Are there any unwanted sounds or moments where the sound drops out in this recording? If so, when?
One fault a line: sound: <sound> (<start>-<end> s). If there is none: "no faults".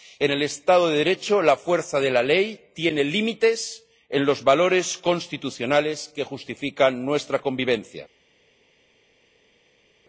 no faults